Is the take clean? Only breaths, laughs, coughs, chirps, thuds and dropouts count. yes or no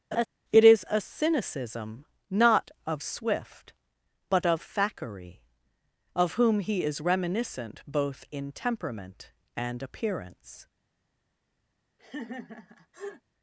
no